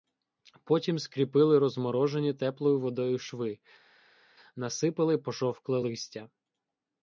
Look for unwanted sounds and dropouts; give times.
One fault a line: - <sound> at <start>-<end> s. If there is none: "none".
none